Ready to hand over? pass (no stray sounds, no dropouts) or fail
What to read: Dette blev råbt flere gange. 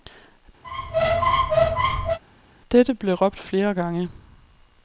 fail